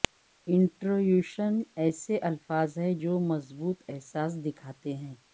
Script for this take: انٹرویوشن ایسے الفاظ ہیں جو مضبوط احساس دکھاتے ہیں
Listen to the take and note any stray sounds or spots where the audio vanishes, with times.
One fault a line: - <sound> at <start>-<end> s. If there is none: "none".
none